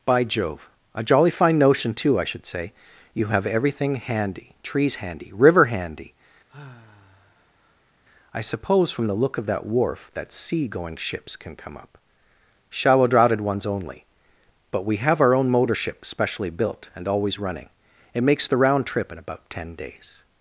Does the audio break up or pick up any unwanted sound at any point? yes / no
yes